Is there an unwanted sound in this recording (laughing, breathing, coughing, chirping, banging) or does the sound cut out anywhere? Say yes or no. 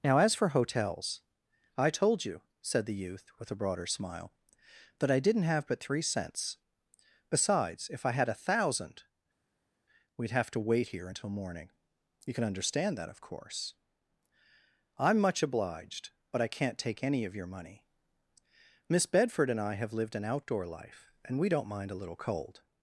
no